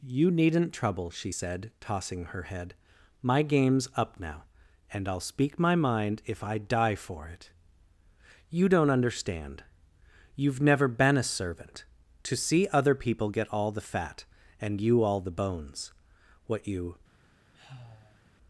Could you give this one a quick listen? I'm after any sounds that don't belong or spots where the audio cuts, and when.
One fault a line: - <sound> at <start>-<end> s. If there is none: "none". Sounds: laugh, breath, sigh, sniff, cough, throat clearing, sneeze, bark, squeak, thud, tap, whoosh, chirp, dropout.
- sigh at 17.5-18.3 s